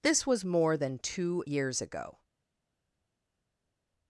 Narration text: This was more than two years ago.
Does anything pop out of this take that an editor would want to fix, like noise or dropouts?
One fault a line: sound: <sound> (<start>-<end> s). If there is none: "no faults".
no faults